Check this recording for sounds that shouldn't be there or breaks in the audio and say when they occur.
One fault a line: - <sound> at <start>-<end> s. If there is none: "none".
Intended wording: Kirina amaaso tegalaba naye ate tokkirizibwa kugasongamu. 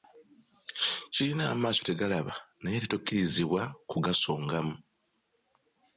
none